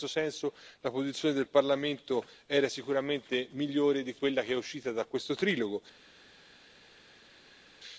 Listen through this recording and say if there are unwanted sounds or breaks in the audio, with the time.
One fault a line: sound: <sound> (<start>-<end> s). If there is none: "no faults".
no faults